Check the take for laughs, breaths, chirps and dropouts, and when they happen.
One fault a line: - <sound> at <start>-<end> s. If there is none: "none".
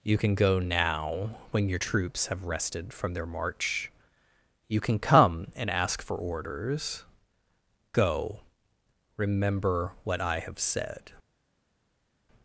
none